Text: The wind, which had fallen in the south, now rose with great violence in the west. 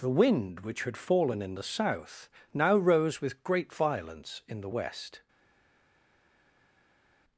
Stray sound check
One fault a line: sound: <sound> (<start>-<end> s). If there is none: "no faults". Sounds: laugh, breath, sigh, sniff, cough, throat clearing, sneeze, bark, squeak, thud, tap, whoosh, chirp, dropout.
no faults